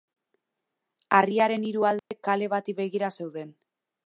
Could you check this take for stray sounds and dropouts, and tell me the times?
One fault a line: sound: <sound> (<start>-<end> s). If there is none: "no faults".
sound: dropout (2.0-2.1 s)